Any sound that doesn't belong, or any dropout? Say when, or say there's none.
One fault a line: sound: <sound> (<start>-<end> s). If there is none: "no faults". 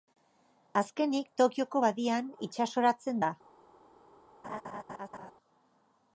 sound: laugh (4.4-5.3 s)